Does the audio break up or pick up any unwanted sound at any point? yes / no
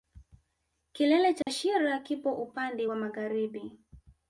yes